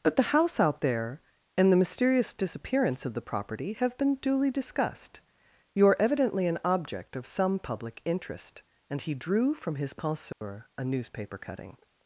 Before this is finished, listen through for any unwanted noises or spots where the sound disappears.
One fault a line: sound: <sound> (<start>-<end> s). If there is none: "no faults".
sound: dropout (10.3-10.4 s)